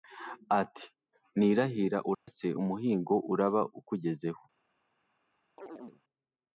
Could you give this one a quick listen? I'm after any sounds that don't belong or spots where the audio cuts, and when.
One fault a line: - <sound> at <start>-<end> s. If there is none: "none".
- dropout at 2.1-2.3 s
- chirp at 5.6-6.0 s